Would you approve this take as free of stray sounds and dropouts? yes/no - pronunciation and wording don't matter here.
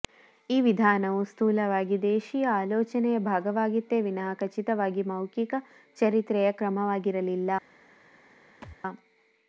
no